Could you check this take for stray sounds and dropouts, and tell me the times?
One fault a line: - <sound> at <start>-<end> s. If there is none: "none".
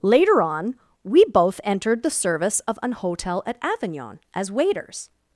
none